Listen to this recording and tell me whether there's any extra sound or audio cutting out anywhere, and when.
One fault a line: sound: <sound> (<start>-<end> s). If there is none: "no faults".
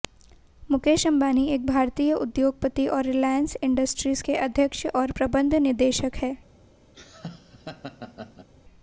sound: laugh (6.9-8.5 s)